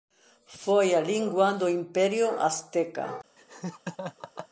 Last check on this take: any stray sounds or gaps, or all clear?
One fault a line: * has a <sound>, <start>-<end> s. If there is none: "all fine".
* has a laugh, 3.4-4.5 s